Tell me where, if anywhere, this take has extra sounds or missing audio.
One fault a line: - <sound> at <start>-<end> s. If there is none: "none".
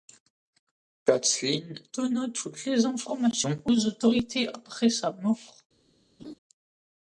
- laugh at 6.2-6.3 s